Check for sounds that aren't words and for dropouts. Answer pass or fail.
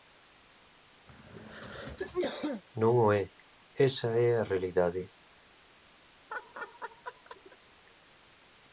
fail